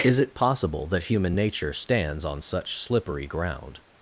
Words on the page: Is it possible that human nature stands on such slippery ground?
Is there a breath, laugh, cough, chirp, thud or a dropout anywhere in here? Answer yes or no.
no